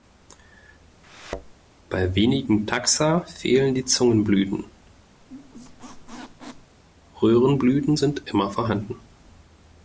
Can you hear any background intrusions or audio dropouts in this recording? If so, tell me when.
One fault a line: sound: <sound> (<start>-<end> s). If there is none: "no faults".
sound: thud (1.0-1.5 s)
sound: squeak (5.2-6.8 s)